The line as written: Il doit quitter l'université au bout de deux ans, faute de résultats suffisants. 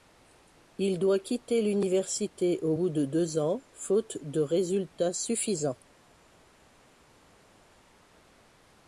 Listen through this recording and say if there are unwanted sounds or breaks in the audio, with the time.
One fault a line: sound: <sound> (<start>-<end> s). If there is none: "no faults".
no faults